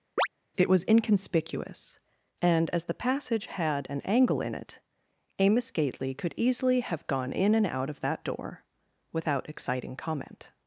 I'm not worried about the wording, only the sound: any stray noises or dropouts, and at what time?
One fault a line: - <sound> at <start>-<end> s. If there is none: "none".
- chirp at 0.2-0.3 s